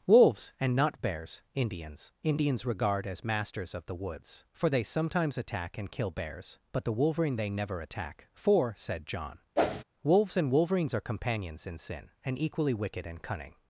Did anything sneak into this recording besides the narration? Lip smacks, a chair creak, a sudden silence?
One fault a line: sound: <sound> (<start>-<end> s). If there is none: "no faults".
sound: whoosh (9.6-9.8 s)